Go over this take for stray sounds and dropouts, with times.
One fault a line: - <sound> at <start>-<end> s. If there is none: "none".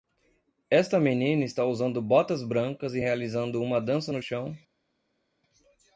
none